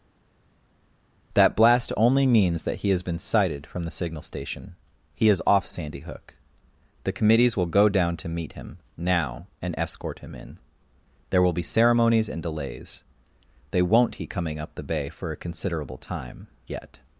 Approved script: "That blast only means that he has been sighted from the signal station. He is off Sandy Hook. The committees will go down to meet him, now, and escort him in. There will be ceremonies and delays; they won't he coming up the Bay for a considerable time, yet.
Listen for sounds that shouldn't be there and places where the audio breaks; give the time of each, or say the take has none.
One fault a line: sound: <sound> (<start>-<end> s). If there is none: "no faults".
no faults